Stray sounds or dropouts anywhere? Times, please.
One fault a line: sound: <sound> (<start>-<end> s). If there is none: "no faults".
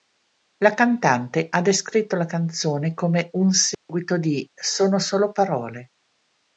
sound: dropout (3.7-3.9 s)